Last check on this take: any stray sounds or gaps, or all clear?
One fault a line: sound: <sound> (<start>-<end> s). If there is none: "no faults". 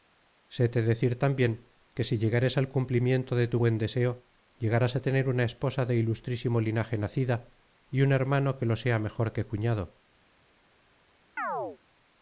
sound: chirp (11.4-11.8 s)